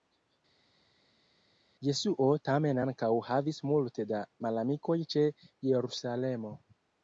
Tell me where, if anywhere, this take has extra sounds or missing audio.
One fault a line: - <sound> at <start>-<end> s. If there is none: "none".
none